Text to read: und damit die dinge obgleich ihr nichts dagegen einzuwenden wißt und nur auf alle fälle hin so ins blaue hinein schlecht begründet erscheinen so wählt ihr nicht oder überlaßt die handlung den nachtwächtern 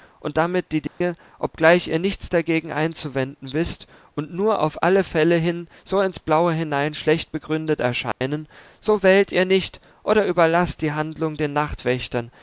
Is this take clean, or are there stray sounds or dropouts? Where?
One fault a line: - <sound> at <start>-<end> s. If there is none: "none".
- dropout at 0.9-1.0 s
- dropout at 8.1-8.2 s